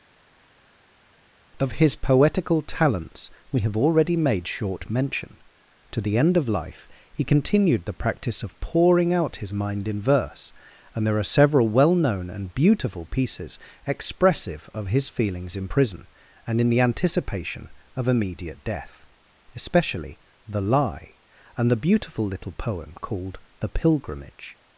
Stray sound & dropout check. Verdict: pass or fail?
pass